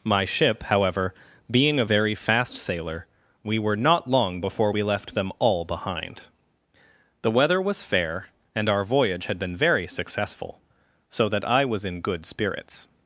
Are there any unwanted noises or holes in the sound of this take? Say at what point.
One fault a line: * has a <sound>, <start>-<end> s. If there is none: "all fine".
all fine